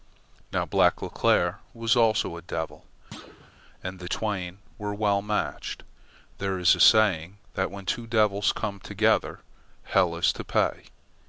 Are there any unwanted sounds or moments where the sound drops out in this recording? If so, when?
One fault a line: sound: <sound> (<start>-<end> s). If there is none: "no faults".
sound: thud (3.1-3.5 s)